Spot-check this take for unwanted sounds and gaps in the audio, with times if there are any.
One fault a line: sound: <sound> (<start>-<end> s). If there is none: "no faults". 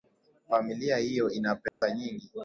sound: dropout (1.7-1.8 s)